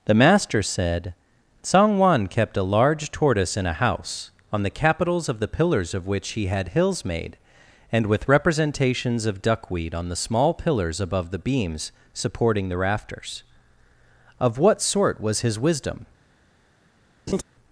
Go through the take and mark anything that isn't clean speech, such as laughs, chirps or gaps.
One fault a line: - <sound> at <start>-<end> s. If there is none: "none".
- laugh at 17.3-17.4 s